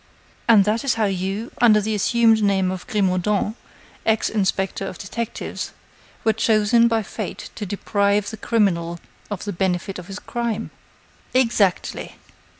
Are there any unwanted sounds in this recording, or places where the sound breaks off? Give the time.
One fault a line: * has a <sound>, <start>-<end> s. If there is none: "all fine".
all fine